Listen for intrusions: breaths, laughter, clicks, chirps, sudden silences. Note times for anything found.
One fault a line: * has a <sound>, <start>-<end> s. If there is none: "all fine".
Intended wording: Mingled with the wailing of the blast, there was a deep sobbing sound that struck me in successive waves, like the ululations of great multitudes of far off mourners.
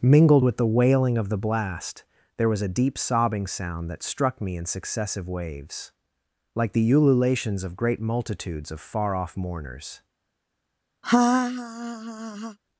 * has a laugh, 11.0-12.6 s